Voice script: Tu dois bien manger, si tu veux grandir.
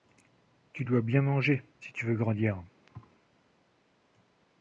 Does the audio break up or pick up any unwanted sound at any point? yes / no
yes